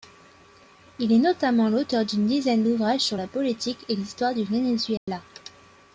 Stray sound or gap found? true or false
true